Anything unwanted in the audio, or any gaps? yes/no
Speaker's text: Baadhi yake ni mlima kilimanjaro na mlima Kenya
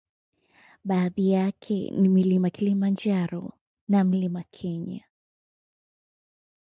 no